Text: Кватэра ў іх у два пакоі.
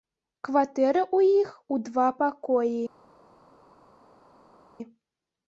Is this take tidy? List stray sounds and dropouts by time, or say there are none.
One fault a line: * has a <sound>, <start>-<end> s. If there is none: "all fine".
all fine